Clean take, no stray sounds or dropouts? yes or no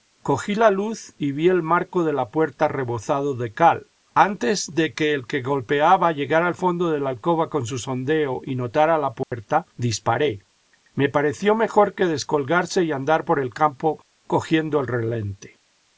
no